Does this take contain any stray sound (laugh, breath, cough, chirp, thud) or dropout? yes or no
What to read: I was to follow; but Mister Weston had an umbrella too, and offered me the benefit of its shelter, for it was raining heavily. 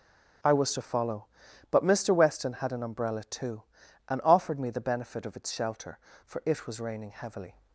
no